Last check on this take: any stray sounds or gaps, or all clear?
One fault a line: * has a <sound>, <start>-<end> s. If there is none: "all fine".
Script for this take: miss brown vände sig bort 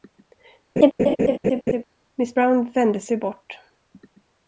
* has a laugh, 0.8-1.8 s